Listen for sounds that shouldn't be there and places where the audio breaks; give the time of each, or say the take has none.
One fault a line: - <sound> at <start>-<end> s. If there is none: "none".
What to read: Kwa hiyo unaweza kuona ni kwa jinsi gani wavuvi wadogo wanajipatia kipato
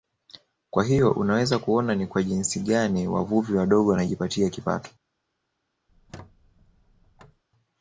- squeak at 5.9-7.4 s